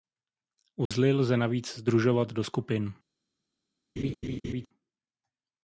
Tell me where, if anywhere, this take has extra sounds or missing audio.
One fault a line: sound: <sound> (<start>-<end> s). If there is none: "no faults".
sound: dropout (0.9-0.9 s)
sound: laugh (4.0-4.7 s)